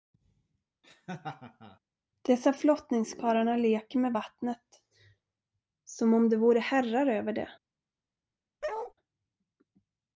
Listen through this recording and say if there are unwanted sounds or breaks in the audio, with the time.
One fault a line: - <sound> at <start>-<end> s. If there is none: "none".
- laugh at 0.8-1.8 s
- bark at 8.6-8.9 s